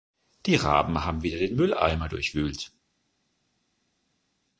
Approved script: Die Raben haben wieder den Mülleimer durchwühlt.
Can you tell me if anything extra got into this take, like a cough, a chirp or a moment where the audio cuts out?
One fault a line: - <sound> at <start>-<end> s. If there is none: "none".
none